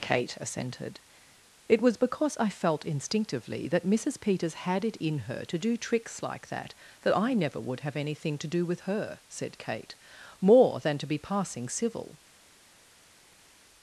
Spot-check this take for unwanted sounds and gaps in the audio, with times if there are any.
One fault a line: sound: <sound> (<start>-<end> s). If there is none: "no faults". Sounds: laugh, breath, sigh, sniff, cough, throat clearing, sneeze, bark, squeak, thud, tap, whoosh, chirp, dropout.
no faults